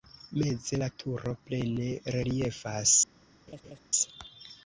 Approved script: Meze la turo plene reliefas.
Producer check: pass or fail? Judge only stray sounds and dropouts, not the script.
fail